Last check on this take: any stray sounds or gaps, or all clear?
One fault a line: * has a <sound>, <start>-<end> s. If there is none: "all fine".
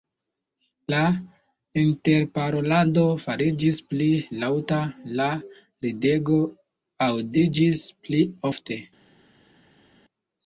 all fine